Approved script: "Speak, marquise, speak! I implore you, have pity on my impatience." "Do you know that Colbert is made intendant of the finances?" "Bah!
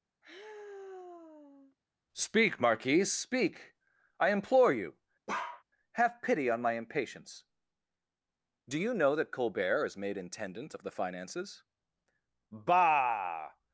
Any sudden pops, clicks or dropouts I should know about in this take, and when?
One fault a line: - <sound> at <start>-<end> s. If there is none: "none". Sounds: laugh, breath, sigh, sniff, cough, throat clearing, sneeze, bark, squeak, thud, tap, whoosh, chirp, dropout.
- sigh at 0.2-1.8 s
- bark at 5.3-5.6 s